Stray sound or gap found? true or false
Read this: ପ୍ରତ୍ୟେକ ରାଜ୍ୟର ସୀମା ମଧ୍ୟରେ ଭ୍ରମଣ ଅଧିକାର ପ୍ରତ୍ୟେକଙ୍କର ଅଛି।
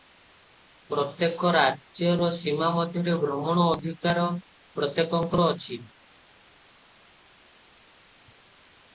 false